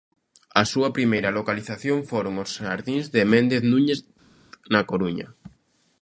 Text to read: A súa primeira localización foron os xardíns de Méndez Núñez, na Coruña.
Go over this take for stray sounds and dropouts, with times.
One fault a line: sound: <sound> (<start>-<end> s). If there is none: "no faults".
no faults